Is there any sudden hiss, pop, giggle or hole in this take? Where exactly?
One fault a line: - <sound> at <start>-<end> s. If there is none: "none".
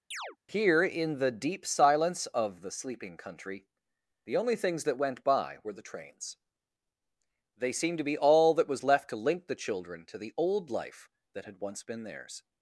- chirp at 0.1-0.4 s